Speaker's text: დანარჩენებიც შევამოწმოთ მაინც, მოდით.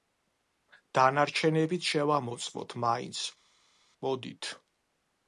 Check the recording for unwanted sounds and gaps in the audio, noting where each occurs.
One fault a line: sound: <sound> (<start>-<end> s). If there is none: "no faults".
no faults